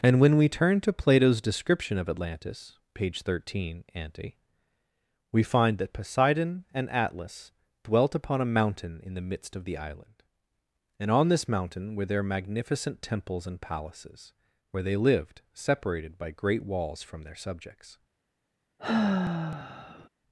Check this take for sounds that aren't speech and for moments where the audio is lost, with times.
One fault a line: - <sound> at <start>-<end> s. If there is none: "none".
- sigh at 18.8-20.1 s